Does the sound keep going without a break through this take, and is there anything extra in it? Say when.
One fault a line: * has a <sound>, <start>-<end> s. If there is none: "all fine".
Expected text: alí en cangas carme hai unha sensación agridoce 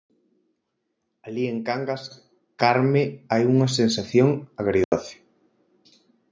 * has a dropout, 4.8-4.9 s